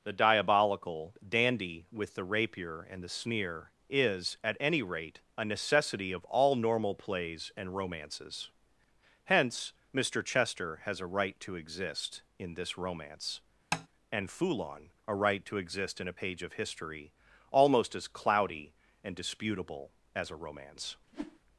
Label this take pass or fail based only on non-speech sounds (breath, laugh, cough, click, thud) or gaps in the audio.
fail